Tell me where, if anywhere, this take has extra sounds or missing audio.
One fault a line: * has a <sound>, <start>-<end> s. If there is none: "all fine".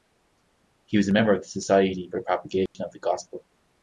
* has a dropout, 2.7-2.7 s